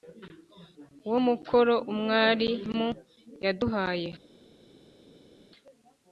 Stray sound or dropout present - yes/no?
no